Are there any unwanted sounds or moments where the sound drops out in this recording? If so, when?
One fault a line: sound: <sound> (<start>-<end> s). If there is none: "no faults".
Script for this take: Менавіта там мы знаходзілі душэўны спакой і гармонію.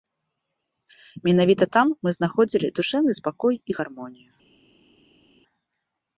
no faults